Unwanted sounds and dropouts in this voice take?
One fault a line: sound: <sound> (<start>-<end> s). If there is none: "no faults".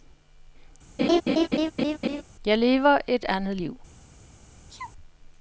sound: laugh (1.0-2.2 s)
sound: sneeze (4.7-4.9 s)